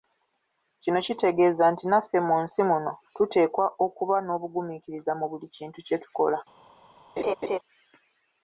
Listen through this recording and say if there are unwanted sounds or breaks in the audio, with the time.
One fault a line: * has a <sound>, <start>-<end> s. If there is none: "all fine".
* has a laugh, 7.2-7.6 s